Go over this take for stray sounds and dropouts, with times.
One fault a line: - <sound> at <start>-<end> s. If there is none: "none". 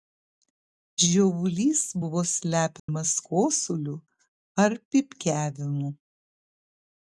- dropout at 2.8-2.9 s